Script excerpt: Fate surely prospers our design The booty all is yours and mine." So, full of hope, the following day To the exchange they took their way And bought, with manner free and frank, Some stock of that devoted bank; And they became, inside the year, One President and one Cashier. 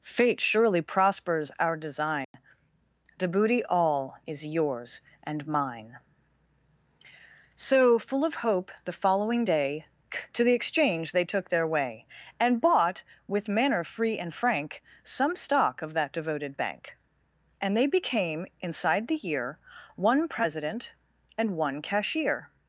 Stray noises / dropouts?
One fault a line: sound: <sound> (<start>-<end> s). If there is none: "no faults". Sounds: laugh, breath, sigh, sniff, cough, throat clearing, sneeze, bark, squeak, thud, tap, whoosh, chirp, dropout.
sound: dropout (2.2-2.3 s)